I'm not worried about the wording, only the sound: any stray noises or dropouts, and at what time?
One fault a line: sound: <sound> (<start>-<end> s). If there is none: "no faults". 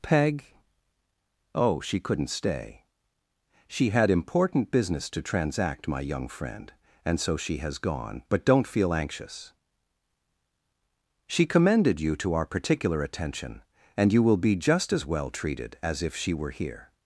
no faults